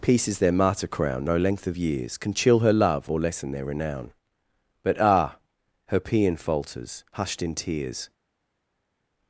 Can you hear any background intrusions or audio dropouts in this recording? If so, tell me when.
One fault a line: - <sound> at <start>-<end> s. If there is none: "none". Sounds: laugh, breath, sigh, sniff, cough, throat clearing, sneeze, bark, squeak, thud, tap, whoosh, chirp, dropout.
none